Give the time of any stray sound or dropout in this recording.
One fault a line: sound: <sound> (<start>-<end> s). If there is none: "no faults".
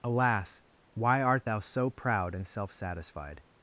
no faults